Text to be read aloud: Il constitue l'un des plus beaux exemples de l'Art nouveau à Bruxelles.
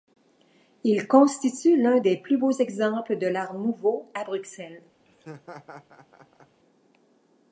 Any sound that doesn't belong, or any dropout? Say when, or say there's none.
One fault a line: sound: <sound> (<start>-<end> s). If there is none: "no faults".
sound: laugh (5.1-6.6 s)